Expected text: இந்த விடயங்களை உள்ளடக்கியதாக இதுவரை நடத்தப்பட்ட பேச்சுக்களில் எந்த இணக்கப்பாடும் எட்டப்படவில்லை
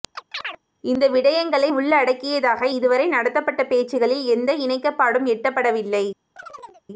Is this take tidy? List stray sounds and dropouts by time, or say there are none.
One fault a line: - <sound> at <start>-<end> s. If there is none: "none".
- chirp at 0.2-0.6 s
- chirp at 6.4-6.8 s